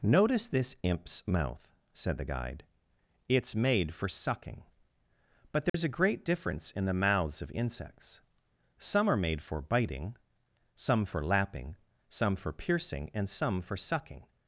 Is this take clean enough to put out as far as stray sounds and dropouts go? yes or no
no